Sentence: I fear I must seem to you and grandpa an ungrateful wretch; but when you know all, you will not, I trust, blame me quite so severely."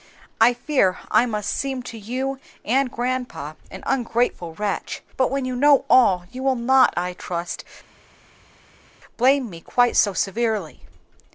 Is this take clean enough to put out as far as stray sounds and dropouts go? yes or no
yes